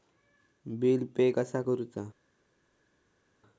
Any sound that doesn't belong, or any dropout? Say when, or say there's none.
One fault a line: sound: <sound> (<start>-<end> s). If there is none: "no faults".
no faults